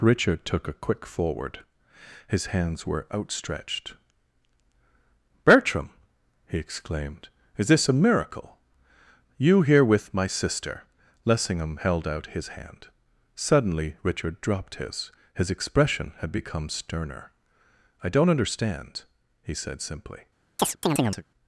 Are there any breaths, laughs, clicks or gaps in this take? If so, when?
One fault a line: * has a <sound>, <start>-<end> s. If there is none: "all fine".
* has a chirp, 20.6-21.2 s